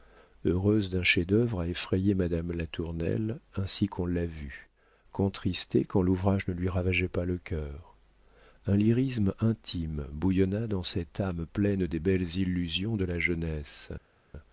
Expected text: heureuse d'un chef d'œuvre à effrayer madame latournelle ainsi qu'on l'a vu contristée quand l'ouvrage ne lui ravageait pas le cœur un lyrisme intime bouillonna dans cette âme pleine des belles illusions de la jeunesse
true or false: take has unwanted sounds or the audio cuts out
false